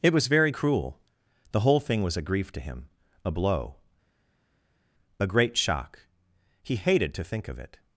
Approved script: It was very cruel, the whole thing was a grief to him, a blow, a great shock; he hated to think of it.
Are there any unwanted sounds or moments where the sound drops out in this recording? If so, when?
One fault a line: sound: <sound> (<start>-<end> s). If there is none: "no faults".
no faults